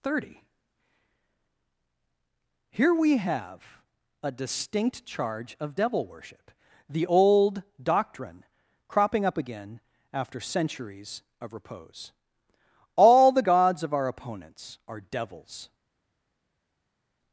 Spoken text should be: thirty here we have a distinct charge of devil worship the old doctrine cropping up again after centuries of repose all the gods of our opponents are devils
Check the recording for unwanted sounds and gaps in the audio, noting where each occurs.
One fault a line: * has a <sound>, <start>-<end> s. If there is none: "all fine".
all fine